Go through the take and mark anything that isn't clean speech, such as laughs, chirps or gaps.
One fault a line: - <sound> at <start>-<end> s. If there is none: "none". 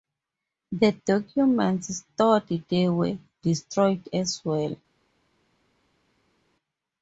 none